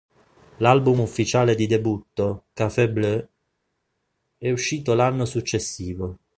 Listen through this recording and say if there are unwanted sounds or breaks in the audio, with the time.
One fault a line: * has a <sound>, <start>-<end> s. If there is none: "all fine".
all fine